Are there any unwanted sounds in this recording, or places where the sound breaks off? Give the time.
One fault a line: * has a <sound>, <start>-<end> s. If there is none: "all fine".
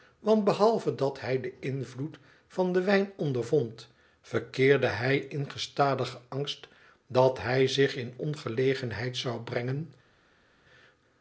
all fine